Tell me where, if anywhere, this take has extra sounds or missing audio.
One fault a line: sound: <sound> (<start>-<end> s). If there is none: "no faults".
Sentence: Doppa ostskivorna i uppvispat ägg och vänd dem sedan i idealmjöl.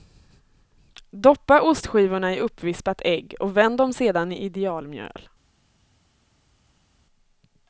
no faults